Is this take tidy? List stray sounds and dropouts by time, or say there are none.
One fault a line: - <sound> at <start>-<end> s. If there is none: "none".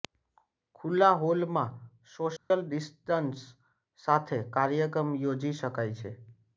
- dropout at 2.4-2.5 s